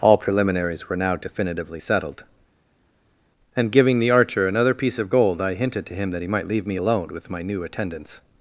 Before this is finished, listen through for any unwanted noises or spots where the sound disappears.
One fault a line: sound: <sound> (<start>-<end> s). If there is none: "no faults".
no faults